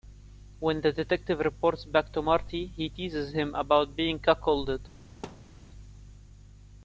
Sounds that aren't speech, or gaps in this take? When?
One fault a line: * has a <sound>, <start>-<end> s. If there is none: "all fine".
* has a thud, 5.2-5.6 s